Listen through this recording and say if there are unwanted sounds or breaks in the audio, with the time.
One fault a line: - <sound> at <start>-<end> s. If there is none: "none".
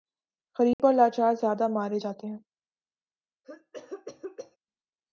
- dropout at 0.7-0.8 s
- cough at 3.4-4.6 s